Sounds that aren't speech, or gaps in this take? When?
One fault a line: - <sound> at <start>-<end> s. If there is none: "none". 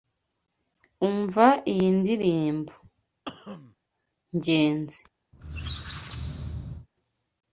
- cough at 3.3-3.8 s
- squeak at 5.3-6.9 s